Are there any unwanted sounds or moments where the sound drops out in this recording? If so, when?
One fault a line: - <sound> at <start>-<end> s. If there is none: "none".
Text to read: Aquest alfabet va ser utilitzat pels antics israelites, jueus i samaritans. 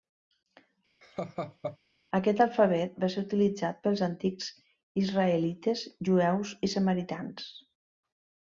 - laugh at 1.0-1.8 s